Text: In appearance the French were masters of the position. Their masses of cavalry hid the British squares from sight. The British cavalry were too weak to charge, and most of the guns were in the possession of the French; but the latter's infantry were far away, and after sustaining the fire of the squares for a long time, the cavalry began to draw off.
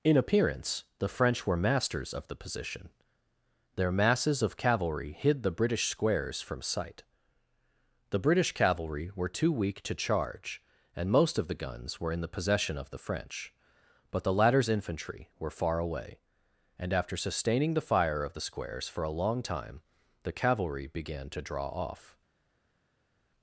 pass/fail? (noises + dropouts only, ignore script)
pass